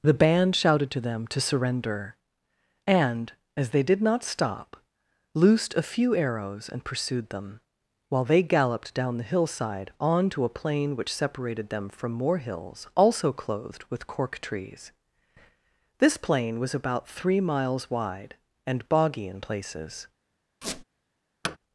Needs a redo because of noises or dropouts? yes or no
yes